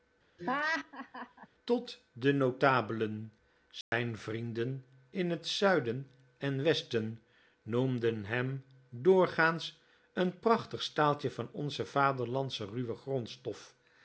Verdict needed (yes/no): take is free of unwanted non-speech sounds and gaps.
no